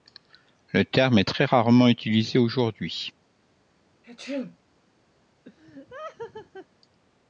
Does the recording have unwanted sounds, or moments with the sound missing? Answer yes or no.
yes